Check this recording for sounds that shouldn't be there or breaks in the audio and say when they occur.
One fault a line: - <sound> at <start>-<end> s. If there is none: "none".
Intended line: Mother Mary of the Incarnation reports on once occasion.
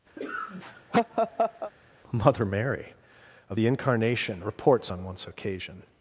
- laugh at 0.2-1.7 s